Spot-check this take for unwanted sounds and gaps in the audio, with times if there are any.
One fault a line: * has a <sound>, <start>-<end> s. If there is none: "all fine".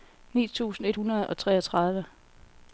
all fine